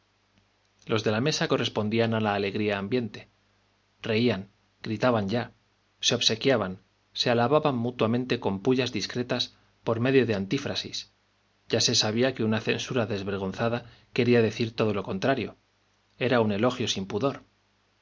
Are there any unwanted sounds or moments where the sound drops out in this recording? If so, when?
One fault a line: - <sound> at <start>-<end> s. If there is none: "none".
none